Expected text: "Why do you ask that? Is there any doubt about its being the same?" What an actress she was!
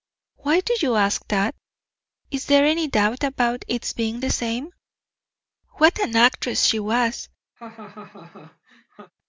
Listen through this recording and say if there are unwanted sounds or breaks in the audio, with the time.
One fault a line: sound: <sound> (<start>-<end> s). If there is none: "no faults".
sound: laugh (7.6-9.1 s)